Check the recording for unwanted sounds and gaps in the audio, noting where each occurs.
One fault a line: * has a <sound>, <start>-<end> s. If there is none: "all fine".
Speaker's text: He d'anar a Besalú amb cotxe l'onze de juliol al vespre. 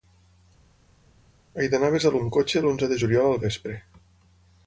all fine